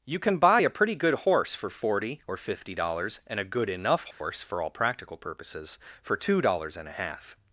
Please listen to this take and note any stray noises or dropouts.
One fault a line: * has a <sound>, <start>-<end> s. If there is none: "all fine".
* has a dropout, 4.1-4.2 s